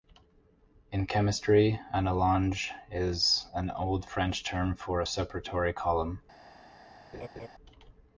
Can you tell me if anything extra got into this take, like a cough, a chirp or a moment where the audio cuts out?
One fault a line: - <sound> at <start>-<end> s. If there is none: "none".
- laugh at 7.1-7.5 s